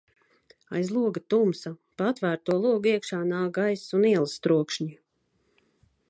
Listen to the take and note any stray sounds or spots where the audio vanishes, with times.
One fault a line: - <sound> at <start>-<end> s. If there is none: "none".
none